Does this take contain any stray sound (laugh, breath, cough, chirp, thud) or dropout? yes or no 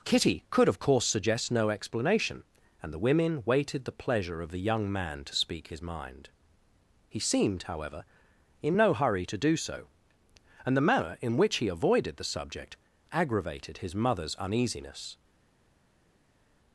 no